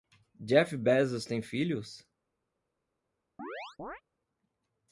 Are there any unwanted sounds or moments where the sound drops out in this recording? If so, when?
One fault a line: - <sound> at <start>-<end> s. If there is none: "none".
- chirp at 3.4-4.0 s